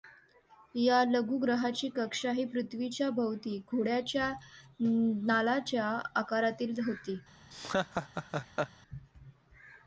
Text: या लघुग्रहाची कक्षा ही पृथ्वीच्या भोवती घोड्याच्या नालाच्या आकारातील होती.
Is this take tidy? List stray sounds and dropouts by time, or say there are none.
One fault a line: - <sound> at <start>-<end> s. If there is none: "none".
- laugh at 7.5-8.7 s